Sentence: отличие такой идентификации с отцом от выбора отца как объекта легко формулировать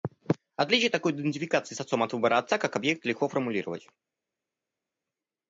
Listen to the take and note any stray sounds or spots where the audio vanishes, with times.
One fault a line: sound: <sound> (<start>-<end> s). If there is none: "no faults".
no faults